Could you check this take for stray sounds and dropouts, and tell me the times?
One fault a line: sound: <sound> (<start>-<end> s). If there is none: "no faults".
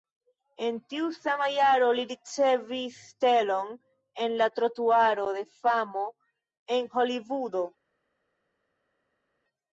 no faults